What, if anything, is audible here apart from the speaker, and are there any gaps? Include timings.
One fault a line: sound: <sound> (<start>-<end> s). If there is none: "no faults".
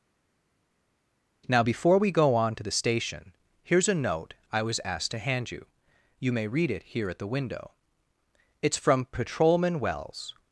no faults